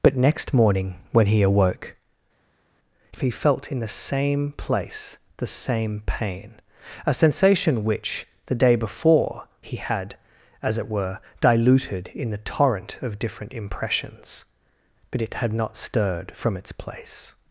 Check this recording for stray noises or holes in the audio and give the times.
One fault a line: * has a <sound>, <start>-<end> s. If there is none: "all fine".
all fine